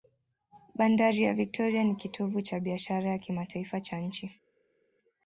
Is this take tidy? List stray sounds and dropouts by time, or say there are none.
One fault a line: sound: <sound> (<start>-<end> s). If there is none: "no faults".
no faults